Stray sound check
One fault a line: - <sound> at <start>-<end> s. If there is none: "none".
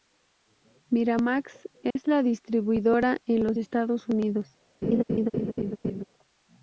- dropout at 1.9-2.0 s
- laugh at 4.8-6.0 s